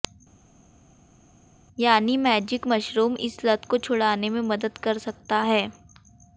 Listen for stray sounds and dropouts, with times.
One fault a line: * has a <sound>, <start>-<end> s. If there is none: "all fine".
all fine